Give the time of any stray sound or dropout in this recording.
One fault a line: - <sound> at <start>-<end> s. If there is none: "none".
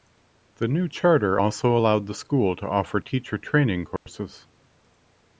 - dropout at 4.0-4.1 s